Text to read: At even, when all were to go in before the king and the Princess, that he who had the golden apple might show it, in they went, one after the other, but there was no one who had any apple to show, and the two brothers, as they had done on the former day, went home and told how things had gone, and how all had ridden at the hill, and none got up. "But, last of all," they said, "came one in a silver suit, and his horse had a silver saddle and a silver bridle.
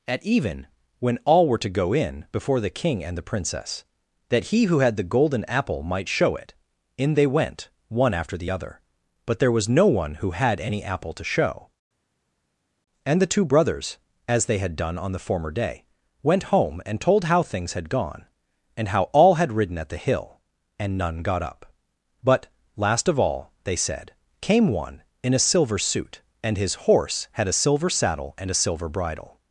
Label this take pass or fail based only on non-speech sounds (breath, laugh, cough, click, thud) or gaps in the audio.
pass